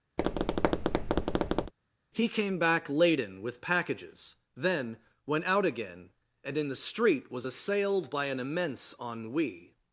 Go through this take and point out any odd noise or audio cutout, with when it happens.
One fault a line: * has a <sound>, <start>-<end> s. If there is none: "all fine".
* has a tap, 0.2-1.7 s